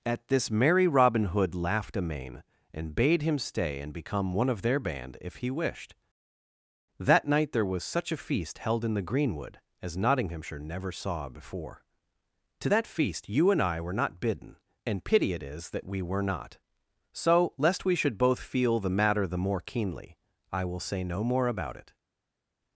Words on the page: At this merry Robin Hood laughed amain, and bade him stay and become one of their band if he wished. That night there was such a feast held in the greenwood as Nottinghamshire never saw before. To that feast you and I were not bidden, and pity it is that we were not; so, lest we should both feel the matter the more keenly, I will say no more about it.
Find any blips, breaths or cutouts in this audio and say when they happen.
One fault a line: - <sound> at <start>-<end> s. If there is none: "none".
none